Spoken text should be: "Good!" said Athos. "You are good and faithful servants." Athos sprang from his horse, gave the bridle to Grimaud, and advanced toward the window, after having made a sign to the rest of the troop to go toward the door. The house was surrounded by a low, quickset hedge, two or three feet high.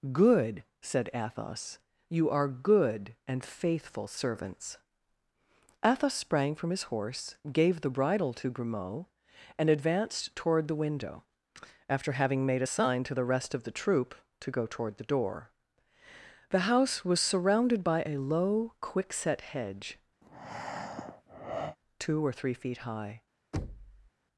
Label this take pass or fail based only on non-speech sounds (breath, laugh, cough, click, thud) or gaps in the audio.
fail